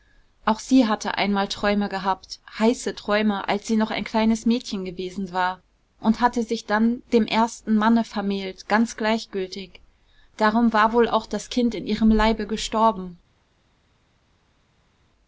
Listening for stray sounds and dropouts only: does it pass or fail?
pass